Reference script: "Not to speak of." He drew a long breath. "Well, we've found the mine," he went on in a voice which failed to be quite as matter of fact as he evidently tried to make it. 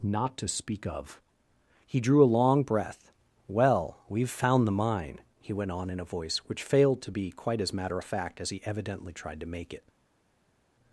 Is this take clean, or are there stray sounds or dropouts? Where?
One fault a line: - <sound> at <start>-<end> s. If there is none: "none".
none